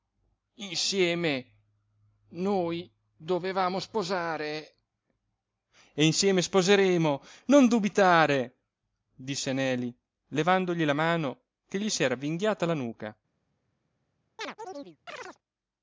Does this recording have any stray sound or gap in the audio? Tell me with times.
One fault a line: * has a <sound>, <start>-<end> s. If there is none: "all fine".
* has a chirp, 14.4-15.4 s